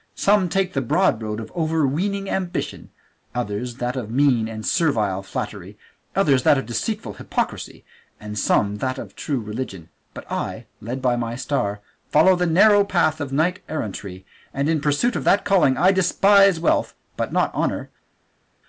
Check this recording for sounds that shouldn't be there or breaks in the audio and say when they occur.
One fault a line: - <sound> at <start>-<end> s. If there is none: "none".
none